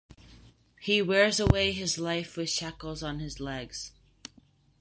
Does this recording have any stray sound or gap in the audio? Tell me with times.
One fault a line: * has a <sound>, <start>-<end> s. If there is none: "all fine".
all fine